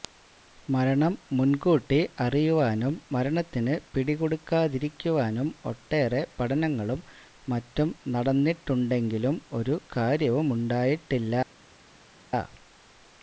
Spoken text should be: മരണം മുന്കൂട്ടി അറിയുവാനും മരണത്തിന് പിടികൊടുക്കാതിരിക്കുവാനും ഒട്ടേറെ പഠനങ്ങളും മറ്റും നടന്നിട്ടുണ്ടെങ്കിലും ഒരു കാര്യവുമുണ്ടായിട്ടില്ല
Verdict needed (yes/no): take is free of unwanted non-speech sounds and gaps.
yes